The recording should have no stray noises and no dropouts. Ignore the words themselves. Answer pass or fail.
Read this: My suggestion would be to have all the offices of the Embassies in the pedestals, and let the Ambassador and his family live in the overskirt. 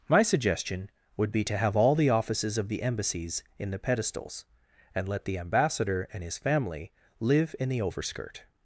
pass